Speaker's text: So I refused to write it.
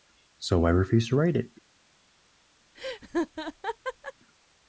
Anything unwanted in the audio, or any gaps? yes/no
yes